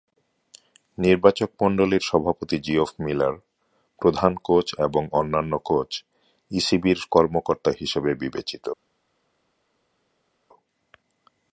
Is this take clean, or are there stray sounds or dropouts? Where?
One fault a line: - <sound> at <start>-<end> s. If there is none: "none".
none